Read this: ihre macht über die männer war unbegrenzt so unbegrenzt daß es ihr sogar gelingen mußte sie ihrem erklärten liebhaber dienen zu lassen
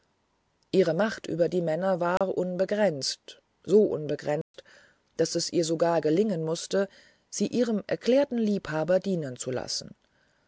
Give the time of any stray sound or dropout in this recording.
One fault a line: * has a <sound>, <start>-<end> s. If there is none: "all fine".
* has a dropout, 2.2-2.2 s
* has a dropout, 4.4-4.5 s